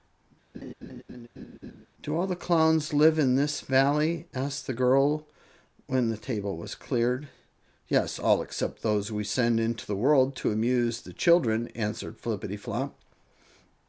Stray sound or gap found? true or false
true